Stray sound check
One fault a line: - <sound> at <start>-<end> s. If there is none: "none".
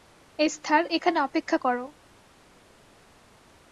none